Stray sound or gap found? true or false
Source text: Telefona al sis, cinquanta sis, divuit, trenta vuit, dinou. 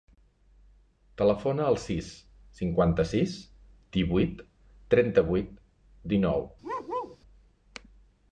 true